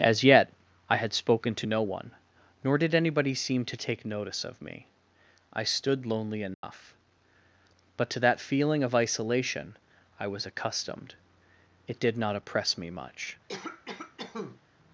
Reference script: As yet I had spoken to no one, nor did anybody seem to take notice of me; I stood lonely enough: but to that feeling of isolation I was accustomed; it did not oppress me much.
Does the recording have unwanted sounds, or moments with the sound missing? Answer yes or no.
yes